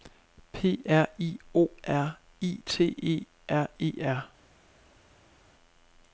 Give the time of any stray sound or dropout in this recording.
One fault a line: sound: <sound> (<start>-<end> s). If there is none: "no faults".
no faults